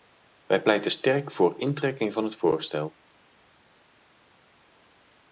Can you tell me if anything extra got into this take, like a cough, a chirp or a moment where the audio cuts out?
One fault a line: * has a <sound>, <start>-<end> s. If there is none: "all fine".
all fine